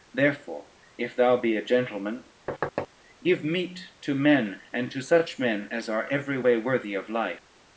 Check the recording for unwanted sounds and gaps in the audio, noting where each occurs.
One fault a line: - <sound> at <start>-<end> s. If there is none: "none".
- thud at 2.5-2.9 s